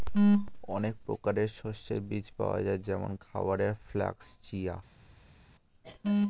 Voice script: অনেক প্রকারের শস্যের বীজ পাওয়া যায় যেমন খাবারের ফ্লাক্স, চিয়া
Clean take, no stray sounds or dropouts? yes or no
yes